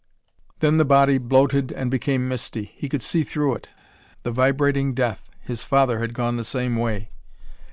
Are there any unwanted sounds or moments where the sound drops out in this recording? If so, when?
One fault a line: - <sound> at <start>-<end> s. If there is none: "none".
none